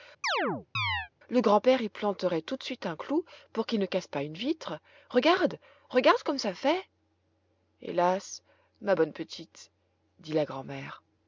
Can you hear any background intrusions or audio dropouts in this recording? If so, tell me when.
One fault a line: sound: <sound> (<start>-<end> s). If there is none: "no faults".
sound: chirp (0.2-1.1 s)